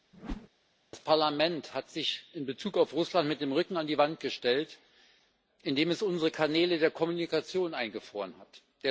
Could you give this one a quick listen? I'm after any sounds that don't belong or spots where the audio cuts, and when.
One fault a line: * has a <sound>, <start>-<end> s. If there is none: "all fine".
* has a whoosh, 0.1-0.5 s